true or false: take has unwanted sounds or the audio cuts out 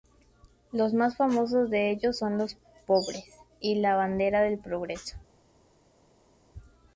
false